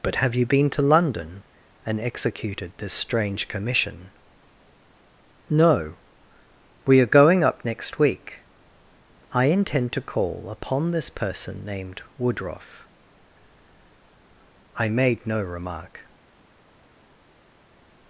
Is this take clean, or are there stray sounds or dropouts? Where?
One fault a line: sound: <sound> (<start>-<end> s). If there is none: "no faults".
no faults